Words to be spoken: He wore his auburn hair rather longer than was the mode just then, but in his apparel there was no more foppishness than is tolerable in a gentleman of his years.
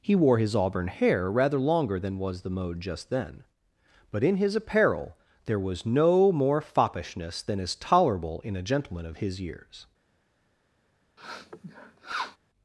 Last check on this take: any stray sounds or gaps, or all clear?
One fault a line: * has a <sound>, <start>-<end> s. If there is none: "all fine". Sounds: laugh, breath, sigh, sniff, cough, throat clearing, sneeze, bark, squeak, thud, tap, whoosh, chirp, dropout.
* has a sniff, 11.2-12.4 s